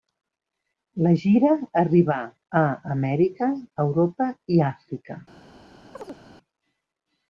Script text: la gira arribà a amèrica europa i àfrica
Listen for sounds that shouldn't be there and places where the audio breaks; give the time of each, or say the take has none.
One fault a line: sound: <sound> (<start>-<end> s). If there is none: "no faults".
sound: chirp (6.0-6.2 s)